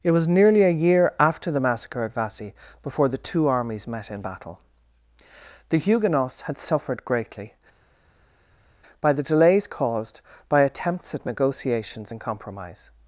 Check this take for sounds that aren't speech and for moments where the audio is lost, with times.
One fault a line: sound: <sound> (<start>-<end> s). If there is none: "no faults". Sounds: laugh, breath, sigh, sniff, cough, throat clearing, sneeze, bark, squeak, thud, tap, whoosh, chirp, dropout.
no faults